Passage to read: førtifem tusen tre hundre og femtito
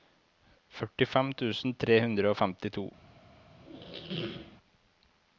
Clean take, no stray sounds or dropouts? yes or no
no